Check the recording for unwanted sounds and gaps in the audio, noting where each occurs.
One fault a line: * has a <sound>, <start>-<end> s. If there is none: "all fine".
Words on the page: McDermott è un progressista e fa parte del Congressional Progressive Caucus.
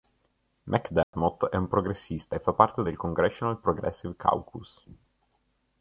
* has a dropout, 1.0-1.1 s